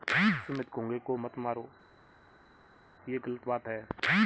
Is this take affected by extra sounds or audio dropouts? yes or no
no